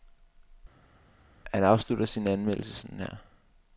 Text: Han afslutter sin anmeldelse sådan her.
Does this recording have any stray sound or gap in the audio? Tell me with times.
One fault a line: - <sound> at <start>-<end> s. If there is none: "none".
none